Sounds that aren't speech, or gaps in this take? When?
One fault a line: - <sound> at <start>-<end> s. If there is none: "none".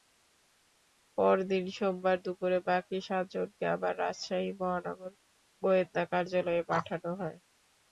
none